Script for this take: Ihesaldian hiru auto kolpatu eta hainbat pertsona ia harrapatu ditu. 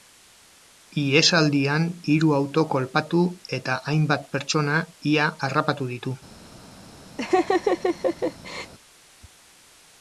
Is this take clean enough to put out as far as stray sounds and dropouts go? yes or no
no